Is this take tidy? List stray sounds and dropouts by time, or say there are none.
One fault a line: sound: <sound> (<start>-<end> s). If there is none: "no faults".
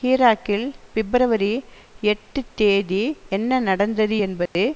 sound: dropout (4.5-4.6 s)